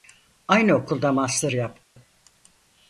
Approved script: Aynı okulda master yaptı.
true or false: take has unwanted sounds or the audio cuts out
true